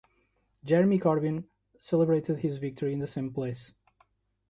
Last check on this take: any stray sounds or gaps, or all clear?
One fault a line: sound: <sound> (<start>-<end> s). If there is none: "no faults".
no faults